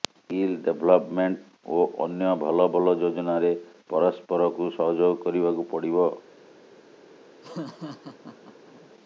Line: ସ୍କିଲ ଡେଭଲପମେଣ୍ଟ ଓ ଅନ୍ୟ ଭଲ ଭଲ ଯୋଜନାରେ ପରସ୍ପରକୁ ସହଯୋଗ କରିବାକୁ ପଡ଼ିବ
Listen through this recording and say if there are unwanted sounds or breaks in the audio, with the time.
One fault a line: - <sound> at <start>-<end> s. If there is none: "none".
- laugh at 7.4-8.9 s